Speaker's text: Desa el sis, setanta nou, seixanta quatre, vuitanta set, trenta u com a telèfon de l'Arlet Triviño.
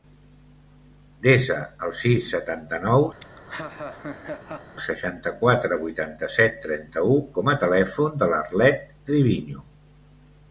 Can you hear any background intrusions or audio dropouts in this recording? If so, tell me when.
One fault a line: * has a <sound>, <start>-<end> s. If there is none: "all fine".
* has a laugh, 3.2-4.8 s